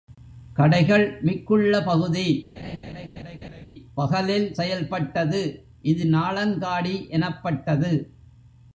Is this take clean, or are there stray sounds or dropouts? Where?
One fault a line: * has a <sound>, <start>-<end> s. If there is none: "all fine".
* has a laugh, 2.6-3.7 s